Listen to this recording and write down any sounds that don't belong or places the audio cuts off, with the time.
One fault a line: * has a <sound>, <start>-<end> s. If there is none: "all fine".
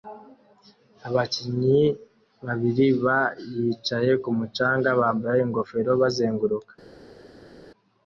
all fine